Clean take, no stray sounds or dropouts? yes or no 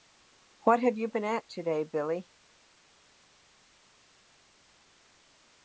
yes